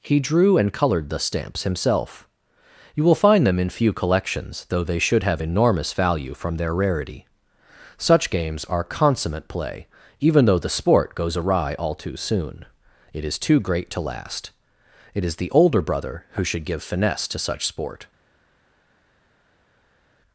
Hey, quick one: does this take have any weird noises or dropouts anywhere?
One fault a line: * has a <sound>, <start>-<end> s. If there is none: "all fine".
all fine